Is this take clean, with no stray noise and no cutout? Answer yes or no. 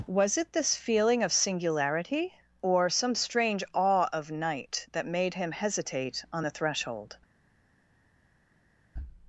yes